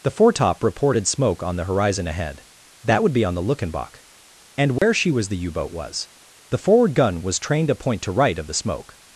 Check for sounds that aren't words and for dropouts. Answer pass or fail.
fail